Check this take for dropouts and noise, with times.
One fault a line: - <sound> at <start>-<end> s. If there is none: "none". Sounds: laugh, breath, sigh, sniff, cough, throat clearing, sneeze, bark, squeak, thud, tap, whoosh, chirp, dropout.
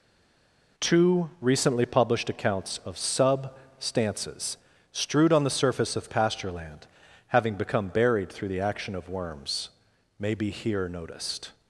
none